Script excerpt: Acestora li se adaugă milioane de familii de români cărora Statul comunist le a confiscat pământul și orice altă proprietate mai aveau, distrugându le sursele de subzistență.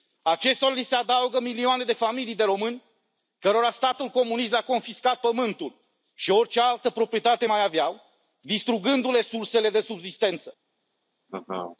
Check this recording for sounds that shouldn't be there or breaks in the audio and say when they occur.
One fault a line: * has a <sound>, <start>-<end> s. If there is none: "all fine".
* has a laugh, 11.3-11.8 s